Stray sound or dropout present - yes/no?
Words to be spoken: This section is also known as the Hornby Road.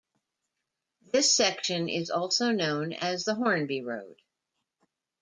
no